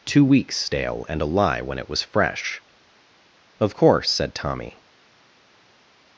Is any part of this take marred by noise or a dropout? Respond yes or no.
no